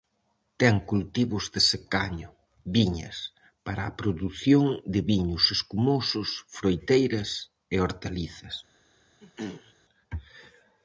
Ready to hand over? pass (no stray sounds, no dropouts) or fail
fail